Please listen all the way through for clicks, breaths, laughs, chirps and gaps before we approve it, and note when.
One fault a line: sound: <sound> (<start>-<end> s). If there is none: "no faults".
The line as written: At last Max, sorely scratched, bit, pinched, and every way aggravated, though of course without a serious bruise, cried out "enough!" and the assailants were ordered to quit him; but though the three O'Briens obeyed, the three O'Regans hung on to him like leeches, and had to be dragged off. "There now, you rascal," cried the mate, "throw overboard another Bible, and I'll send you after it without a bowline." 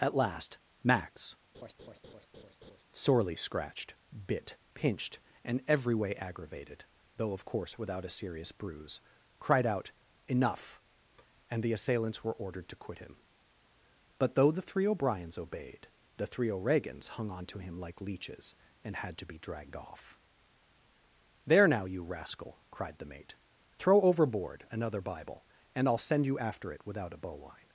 sound: laugh (1.5-2.8 s)